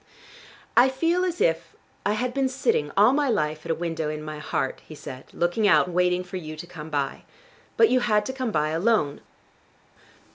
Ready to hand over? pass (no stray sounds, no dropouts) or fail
pass